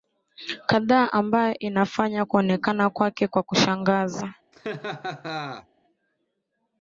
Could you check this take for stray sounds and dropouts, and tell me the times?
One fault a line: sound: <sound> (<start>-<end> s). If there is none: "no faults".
sound: laugh (4.5-5.7 s)